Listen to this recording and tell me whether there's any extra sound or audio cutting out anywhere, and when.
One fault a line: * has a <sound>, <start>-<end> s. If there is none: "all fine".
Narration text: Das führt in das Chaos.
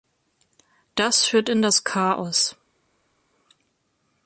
all fine